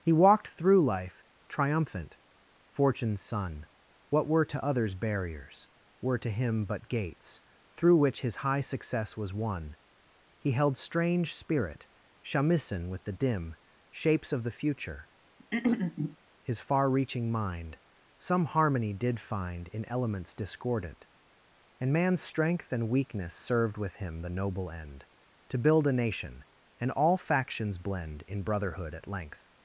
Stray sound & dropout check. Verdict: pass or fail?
fail